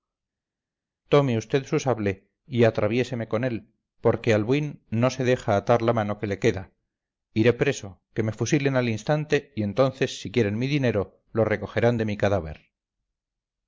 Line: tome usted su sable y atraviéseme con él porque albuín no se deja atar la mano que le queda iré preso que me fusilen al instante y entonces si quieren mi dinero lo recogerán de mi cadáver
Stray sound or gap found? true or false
false